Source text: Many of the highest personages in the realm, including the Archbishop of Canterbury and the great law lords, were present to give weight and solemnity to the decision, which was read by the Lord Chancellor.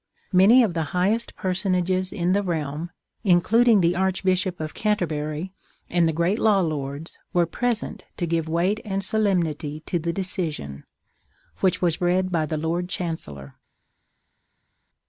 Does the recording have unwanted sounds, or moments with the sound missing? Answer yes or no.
no